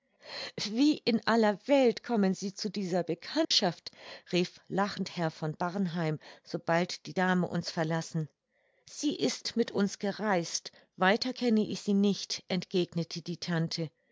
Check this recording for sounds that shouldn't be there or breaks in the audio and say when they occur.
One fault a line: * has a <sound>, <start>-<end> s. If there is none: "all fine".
* has a dropout, 3.4-3.5 s